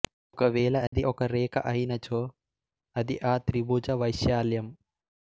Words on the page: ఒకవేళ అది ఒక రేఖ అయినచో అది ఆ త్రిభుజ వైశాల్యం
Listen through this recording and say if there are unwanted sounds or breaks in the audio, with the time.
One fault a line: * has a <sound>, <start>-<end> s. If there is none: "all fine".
* has a dropout, 0.9-0.9 s